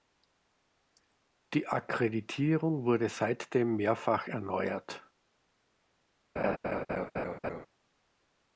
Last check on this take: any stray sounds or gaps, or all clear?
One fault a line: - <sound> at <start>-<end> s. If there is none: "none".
- laugh at 6.4-7.7 s